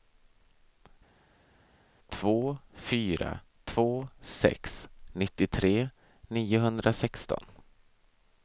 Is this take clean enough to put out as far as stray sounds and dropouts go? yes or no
yes